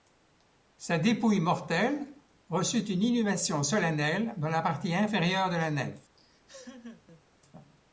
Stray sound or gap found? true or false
true